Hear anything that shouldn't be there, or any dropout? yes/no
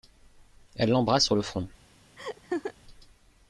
yes